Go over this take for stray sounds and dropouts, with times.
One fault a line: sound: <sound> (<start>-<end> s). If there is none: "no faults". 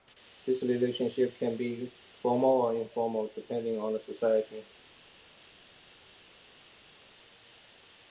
no faults